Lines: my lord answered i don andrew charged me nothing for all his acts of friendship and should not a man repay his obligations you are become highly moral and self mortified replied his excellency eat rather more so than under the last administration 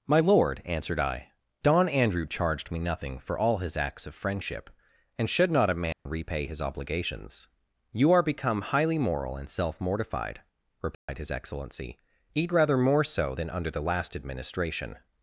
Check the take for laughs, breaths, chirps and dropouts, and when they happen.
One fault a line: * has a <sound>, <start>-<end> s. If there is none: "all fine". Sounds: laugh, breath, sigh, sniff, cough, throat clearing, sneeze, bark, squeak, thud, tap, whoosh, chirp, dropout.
* has a dropout, 5.9-6.1 s
* has a dropout, 10.9-11.1 s